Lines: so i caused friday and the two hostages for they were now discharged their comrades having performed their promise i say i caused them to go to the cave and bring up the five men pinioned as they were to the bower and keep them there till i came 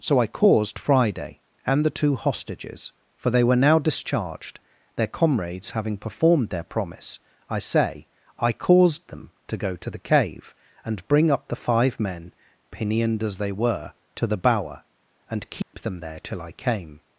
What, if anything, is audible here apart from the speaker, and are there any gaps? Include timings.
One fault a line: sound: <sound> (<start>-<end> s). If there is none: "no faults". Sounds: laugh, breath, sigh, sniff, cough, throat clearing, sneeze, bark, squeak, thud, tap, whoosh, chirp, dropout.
sound: dropout (15.6-15.7 s)